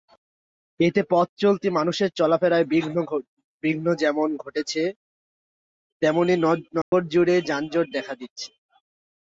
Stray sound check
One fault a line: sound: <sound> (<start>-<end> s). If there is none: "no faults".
sound: dropout (6.8-6.9 s)